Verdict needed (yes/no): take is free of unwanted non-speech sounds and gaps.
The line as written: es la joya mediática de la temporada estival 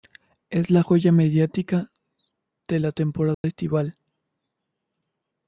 no